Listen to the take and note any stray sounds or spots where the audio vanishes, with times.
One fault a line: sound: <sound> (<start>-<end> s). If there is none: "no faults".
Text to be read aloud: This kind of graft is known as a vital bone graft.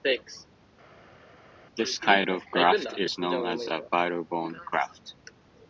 no faults